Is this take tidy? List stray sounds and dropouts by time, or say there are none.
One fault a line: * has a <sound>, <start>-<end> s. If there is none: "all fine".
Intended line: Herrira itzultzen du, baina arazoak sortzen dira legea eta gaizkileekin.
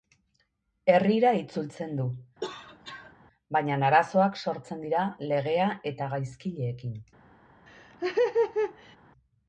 * has a cough, 2.4-3.1 s
* has a laugh, 7.7-9.0 s